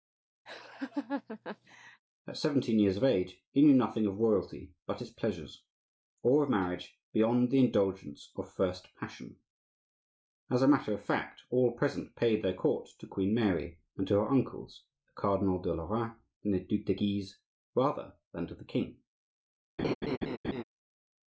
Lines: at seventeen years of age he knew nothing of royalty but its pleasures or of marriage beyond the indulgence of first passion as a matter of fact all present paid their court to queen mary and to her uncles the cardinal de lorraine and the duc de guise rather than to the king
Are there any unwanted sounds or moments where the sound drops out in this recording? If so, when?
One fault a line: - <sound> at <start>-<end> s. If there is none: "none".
- laugh at 0.5-2.0 s
- laugh at 19.8-20.6 s